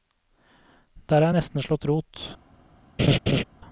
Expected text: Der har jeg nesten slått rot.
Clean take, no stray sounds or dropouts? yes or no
no